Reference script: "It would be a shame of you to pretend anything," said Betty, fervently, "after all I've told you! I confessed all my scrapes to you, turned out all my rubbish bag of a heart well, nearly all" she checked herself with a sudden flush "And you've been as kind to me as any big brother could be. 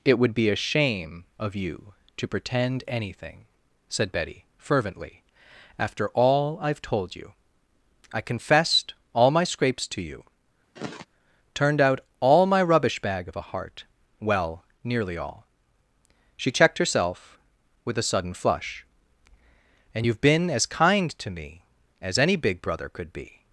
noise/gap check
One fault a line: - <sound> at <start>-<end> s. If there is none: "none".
- sigh at 10.8-11.1 s